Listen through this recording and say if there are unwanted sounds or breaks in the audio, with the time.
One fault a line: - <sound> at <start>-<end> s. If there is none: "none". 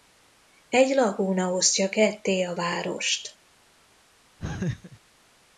- laugh at 4.4-5.0 s